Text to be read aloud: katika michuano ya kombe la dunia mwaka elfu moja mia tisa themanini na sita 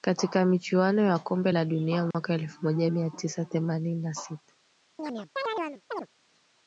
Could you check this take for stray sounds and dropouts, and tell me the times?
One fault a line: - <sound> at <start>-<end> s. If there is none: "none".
- dropout at 2.1-2.1 s
- chirp at 5.0-6.1 s